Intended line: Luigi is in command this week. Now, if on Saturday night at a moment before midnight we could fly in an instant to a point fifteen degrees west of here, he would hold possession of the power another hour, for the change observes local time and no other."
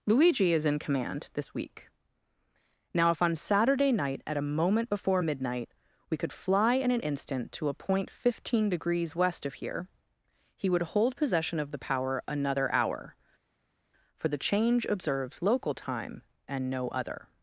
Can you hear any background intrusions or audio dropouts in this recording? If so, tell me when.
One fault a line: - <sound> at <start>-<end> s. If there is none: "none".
none